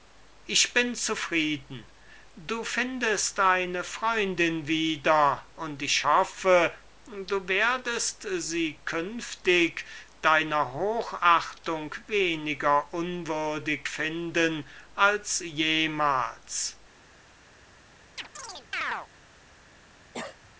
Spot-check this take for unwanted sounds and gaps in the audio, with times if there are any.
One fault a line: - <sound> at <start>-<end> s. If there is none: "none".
- chirp at 18.2-19.1 s
- cough at 20.1-20.5 s